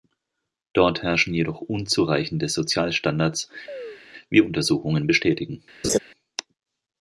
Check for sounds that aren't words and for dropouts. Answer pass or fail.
fail